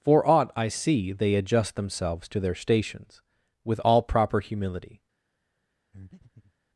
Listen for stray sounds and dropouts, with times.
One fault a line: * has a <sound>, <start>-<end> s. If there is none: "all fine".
* has a breath, 5.9-6.5 s